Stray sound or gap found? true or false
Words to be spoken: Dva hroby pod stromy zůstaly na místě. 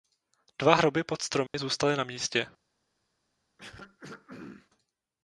true